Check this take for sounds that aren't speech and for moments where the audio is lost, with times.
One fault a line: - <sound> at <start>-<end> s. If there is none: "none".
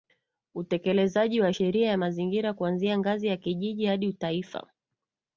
none